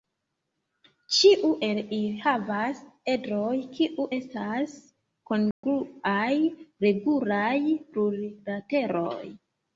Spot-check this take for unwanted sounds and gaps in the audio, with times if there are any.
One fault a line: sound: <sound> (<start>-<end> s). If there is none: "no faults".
sound: dropout (5.5-5.6 s)